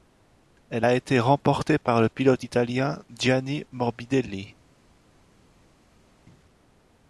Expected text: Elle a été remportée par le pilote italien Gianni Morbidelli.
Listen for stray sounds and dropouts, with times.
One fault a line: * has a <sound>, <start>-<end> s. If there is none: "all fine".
all fine